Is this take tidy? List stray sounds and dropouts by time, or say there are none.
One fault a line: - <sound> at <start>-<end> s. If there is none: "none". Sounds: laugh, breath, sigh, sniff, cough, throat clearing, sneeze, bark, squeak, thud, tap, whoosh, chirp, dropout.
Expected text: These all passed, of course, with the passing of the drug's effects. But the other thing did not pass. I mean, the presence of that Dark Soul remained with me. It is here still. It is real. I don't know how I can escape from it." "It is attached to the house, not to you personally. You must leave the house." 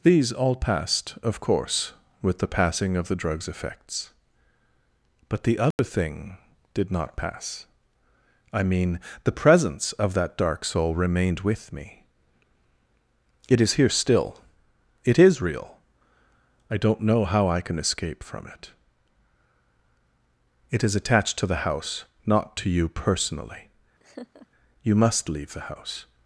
- dropout at 5.7-5.8 s
- laugh at 24.0-24.5 s